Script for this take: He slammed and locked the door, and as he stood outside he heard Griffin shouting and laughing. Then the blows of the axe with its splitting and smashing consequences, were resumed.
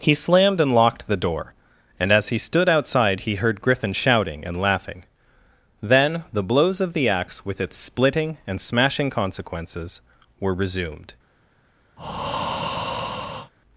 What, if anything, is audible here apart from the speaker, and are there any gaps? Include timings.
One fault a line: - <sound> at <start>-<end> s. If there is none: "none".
- breath at 12.0-13.5 s